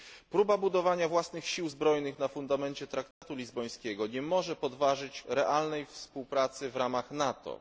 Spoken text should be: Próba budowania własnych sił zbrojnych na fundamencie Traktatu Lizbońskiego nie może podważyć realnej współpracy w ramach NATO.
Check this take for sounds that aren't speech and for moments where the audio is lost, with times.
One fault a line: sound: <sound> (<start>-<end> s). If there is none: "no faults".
sound: dropout (3.1-3.2 s)